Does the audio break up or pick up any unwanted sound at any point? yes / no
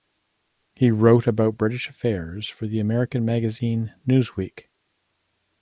no